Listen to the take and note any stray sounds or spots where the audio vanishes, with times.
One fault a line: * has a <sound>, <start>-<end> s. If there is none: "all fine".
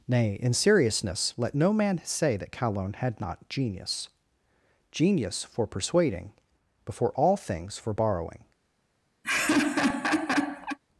* has a laugh, 9.2-10.8 s